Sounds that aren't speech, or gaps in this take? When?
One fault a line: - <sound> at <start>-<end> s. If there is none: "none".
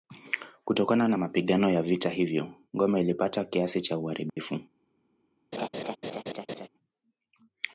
- dropout at 4.3-4.4 s
- laugh at 5.5-6.7 s